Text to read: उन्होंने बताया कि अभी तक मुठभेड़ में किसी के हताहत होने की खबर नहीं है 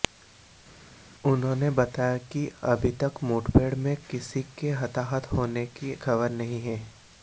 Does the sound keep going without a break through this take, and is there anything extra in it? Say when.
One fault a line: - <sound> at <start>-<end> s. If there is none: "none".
none